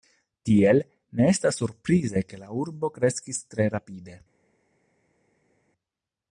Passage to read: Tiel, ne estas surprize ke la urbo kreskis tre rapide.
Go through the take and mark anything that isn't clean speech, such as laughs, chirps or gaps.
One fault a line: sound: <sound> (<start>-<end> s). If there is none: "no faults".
no faults